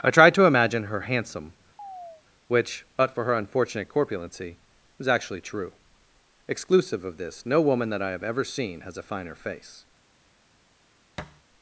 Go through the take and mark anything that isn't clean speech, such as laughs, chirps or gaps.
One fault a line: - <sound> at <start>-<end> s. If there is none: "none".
- chirp at 1.8-2.2 s
- thud at 11.2-11.4 s